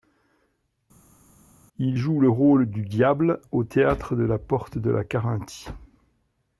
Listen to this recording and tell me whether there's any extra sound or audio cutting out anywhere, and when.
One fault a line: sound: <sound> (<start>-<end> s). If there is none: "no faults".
no faults